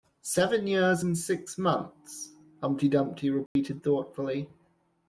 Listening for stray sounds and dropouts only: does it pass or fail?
fail